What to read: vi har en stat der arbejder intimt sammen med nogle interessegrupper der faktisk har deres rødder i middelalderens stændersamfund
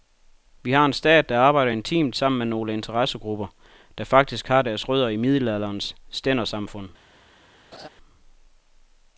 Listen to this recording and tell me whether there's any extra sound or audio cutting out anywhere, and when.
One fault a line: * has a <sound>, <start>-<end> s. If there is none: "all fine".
* has a laugh, 7.7-7.9 s